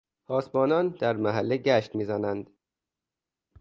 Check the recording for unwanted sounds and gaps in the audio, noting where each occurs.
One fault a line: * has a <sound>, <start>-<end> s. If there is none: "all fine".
all fine